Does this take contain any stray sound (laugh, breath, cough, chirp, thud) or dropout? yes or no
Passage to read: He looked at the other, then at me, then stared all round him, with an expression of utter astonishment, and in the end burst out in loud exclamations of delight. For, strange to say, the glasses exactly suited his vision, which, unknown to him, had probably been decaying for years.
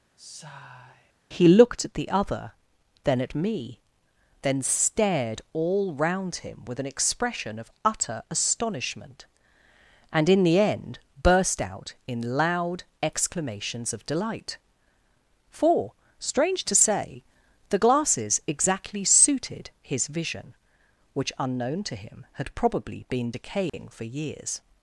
yes